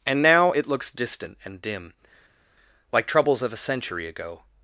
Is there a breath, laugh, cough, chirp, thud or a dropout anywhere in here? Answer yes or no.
no